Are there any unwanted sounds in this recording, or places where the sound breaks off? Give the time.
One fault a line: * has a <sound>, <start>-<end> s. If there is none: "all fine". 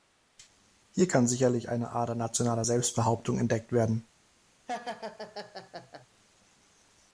* has a laugh, 4.7-6.1 s